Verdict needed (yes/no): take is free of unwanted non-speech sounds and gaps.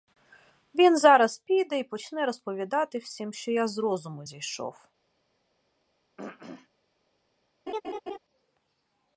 no